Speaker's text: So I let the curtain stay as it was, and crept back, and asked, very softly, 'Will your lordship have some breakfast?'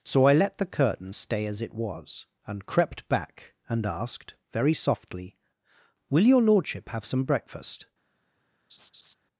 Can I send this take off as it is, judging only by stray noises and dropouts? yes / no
no